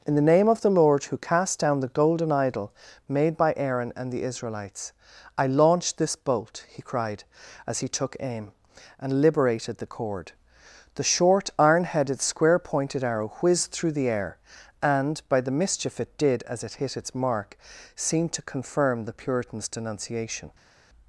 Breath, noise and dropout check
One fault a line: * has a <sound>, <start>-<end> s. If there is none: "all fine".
all fine